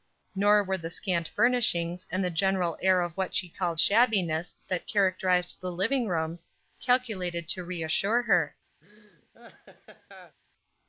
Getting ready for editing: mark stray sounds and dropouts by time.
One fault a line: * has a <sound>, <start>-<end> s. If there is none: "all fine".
* has a laugh, 8.8-10.4 s